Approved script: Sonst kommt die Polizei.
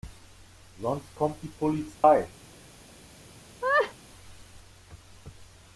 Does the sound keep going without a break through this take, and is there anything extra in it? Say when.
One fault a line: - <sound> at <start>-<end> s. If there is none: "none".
- dropout at 1.9-2.0 s
- laugh at 3.6-3.9 s